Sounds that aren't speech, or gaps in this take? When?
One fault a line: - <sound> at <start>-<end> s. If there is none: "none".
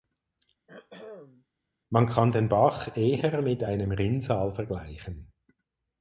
- throat clearing at 0.7-1.5 s